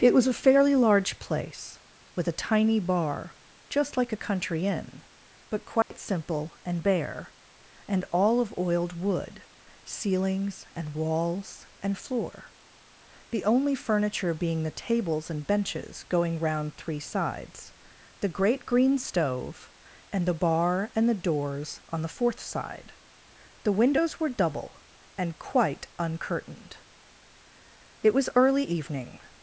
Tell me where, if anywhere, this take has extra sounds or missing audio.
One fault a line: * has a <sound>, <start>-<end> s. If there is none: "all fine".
* has a dropout, 5.8-5.9 s